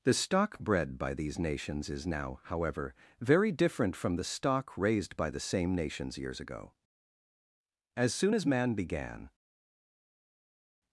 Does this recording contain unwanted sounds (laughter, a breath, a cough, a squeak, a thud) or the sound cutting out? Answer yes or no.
no